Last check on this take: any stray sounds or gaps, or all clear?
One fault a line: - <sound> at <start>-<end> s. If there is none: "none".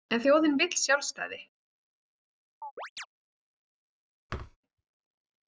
- chirp at 2.6-3.1 s
- thud at 4.3-4.6 s